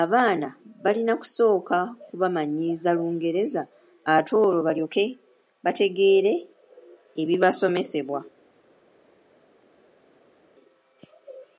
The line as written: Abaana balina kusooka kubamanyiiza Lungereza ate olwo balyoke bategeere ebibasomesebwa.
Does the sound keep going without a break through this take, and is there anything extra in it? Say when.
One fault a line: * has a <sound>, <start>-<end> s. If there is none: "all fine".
all fine